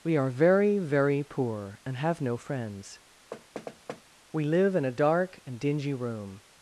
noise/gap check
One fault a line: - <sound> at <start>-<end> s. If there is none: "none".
- thud at 3.3-4.0 s